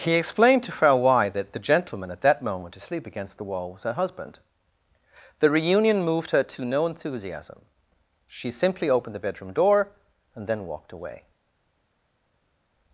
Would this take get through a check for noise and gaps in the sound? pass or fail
pass